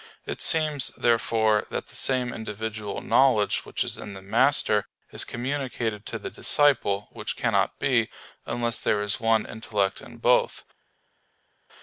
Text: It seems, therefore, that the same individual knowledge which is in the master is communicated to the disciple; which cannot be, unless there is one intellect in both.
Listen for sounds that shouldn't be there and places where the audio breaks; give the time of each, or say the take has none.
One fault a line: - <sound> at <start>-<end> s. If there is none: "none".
none